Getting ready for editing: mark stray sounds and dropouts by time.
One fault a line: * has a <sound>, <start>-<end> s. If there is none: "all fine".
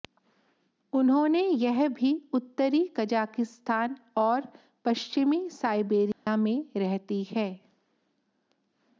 * has a dropout, 6.1-6.3 s